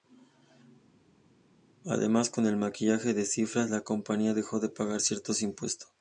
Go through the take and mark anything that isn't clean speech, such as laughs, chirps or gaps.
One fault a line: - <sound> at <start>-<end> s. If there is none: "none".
none